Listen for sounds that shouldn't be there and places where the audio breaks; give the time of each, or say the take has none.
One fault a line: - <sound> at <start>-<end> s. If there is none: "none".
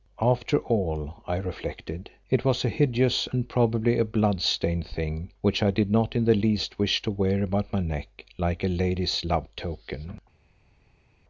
none